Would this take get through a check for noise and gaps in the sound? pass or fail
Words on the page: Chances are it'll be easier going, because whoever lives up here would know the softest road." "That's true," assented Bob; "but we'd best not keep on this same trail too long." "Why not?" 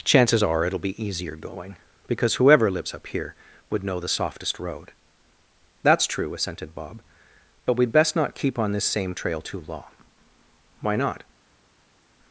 pass